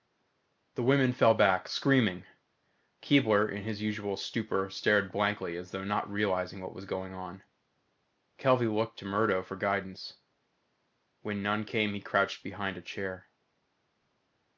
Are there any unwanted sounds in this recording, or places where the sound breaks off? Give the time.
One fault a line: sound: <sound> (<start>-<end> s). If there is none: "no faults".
no faults